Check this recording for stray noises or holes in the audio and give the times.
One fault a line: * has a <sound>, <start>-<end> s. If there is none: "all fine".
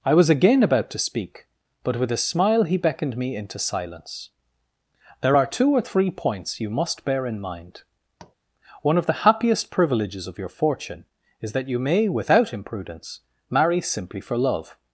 * has a tap, 8.2-8.4 s